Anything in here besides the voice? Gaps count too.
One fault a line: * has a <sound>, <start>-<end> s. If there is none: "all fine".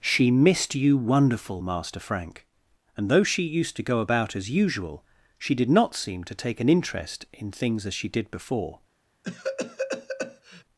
* has a cough, 9.2-10.6 s